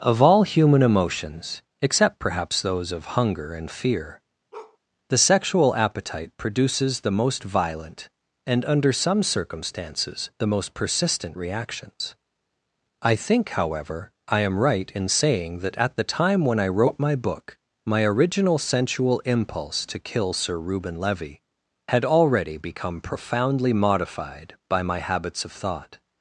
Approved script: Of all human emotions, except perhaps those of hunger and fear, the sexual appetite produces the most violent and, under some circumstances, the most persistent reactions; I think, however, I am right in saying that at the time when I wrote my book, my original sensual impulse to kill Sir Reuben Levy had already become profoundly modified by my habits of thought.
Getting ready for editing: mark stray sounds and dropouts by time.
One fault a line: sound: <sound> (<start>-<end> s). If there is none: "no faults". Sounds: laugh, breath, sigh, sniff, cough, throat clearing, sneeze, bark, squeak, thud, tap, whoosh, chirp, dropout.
sound: bark (4.5-4.8 s)